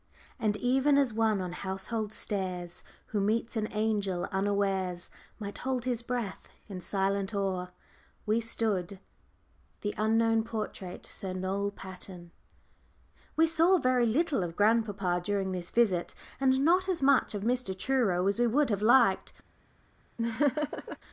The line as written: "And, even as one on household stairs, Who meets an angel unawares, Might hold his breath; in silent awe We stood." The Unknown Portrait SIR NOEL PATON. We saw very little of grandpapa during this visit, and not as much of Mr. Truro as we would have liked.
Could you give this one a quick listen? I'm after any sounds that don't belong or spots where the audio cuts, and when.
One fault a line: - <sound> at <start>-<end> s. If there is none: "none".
- laugh at 20.2-21.0 s